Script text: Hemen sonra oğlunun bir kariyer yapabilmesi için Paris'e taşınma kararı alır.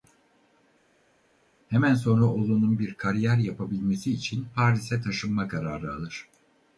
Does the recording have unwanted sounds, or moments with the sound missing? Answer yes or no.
no